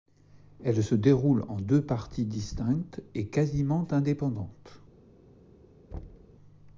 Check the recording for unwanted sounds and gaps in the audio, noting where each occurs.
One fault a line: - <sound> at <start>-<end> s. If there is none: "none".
- thud at 5.9-6.4 s